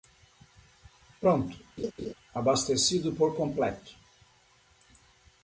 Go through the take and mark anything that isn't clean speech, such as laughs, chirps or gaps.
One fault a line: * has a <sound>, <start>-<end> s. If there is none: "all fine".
* has a laugh, 1.8-2.1 s